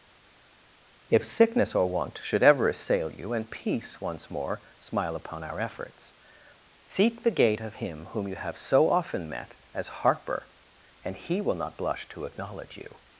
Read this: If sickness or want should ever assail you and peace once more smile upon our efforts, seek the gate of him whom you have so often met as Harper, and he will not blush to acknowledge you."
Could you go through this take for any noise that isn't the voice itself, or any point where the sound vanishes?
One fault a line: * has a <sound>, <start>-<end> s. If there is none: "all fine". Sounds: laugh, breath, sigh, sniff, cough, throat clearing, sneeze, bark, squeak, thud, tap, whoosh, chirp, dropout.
all fine